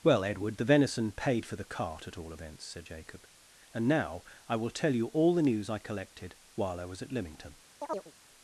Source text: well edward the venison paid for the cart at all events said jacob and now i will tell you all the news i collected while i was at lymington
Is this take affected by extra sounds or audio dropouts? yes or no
yes